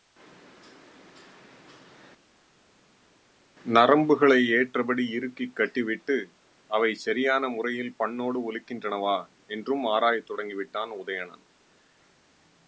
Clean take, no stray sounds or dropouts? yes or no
yes